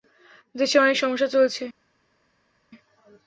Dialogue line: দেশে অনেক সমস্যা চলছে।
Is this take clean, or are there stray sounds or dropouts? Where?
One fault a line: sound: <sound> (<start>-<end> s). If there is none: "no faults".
no faults